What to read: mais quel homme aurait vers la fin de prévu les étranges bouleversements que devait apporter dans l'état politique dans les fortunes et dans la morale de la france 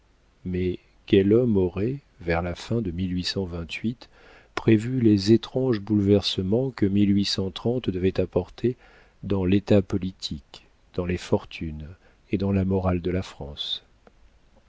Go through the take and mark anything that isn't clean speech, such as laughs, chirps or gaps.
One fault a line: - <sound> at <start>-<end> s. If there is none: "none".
none